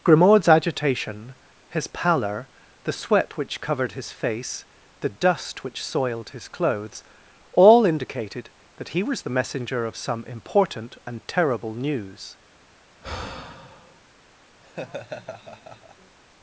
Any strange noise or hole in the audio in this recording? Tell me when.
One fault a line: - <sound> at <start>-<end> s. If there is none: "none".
- sigh at 13.0-14.0 s
- laugh at 14.6-16.2 s